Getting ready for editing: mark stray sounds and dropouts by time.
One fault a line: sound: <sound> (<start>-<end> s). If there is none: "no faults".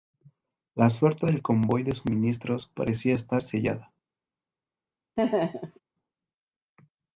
sound: laugh (5.2-5.8 s)